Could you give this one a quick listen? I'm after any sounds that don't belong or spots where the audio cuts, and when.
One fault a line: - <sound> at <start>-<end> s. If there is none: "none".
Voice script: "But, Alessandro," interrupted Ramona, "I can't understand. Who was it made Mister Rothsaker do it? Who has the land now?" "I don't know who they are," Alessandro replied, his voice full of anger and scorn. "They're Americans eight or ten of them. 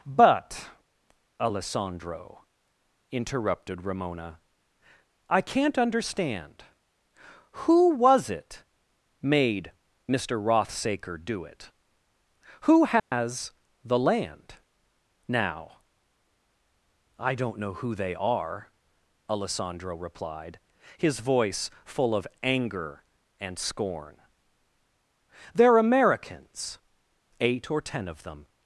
- dropout at 13.0-13.1 s